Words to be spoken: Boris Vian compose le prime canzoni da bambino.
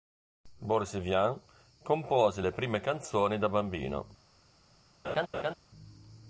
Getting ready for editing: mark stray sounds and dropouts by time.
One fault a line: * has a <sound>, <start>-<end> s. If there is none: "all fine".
* has a laugh, 5.0-5.5 s